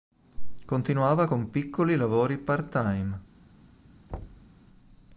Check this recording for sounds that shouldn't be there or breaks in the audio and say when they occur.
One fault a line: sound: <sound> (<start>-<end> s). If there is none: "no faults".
sound: thud (4.1-4.5 s)